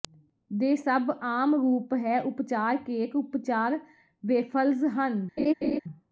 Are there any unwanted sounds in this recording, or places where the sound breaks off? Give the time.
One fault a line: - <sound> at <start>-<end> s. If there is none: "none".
- laugh at 5.4-5.8 s